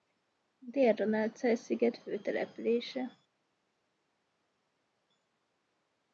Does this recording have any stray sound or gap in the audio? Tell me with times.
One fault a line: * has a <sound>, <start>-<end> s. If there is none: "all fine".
all fine